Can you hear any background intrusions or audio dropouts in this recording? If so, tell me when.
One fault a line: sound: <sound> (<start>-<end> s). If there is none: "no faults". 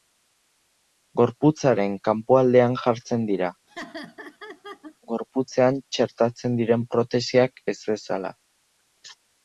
sound: laugh (3.7-5.0 s)